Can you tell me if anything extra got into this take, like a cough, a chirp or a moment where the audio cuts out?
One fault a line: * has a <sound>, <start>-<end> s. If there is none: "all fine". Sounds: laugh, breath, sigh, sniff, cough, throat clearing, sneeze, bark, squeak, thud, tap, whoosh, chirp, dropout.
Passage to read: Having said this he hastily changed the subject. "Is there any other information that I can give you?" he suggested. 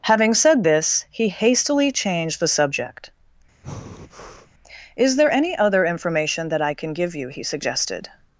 * has a breath, 3.6-4.5 s